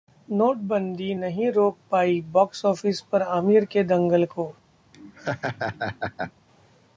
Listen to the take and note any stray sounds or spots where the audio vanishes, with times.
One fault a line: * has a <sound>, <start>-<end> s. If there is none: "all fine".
* has a laugh, 4.9-6.3 s